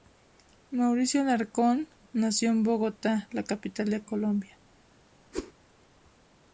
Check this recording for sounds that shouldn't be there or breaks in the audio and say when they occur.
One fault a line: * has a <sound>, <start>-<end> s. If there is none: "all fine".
* has a whoosh, 5.3-5.5 s